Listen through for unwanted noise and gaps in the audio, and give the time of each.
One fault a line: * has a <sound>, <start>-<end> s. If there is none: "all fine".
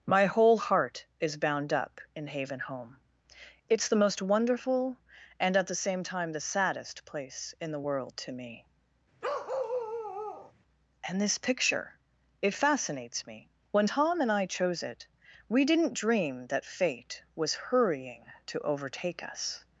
* has a bark, 9.2-10.5 s